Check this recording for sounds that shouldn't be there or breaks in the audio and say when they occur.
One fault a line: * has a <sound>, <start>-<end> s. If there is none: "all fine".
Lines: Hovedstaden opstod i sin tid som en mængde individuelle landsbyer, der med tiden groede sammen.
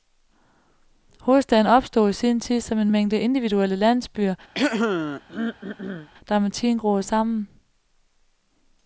* has a throat clearing, 4.5-6.1 s